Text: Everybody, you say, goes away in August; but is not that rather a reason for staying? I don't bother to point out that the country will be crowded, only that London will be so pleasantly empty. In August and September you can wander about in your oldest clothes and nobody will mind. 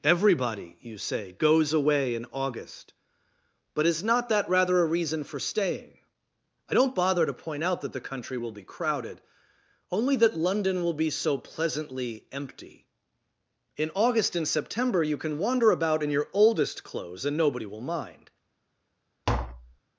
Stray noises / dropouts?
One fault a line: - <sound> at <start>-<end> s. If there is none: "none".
- tap at 19.3-19.8 s